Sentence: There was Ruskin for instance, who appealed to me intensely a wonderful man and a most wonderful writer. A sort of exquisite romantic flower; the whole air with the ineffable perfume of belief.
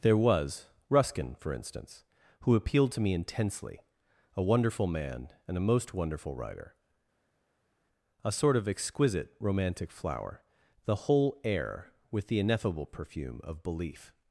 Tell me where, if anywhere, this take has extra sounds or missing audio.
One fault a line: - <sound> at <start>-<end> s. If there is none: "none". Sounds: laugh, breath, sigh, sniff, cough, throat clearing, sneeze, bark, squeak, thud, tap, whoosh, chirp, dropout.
none